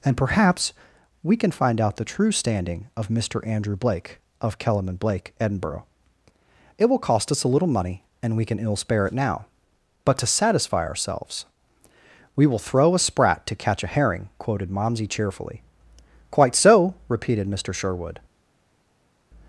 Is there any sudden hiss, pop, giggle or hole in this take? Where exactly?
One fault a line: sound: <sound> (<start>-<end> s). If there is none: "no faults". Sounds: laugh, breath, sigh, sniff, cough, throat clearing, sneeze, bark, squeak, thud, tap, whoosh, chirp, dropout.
no faults